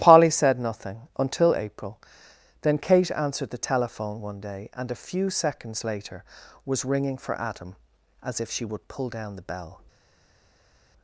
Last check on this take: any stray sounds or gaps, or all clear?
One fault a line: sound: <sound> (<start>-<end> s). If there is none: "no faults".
no faults